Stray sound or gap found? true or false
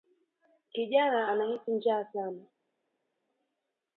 false